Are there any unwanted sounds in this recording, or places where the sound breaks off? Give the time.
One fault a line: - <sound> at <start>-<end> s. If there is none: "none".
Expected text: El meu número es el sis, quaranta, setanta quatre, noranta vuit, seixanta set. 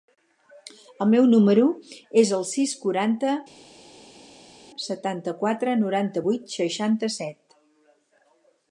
none